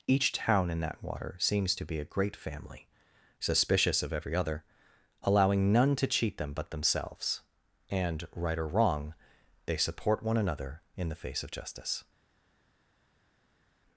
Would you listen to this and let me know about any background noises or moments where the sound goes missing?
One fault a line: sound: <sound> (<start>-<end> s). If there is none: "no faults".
no faults